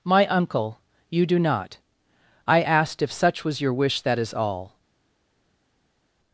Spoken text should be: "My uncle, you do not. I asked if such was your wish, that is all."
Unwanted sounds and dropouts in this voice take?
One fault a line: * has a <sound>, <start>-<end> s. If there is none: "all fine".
all fine